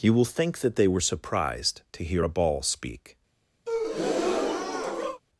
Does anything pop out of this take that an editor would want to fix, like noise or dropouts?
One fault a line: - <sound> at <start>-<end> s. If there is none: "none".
- breath at 3.7-5.2 s